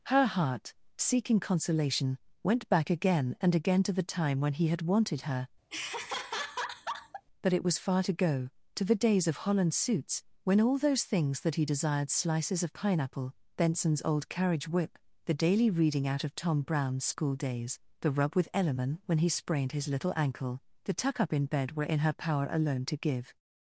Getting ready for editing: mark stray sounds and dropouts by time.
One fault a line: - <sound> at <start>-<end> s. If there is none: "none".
- laugh at 5.7-7.2 s